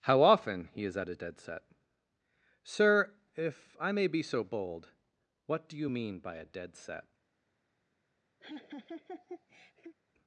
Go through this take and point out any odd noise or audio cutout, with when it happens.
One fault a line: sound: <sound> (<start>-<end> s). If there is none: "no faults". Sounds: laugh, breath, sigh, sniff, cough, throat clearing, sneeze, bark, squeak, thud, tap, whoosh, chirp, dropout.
sound: laugh (8.4-10.0 s)